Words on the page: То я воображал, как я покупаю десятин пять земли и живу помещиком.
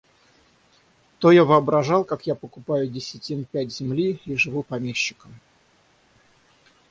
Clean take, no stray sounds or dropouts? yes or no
yes